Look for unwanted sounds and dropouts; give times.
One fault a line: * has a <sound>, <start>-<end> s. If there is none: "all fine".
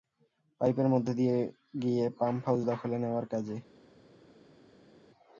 all fine